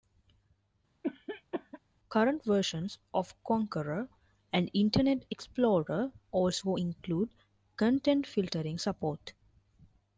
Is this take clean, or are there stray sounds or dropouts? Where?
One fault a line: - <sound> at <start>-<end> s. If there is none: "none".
- cough at 1.0-1.8 s